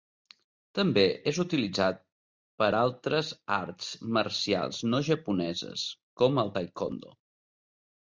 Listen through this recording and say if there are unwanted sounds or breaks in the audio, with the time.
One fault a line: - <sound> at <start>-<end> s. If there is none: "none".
none